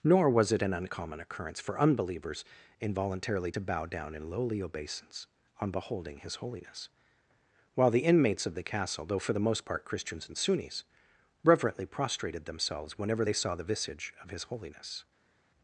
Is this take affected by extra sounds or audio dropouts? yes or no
no